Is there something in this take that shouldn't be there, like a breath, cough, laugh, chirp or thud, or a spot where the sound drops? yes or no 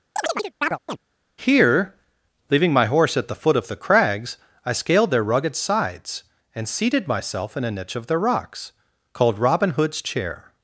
yes